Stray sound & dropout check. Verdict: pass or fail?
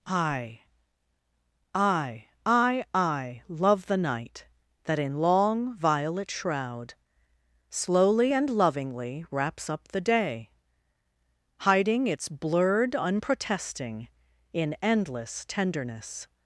pass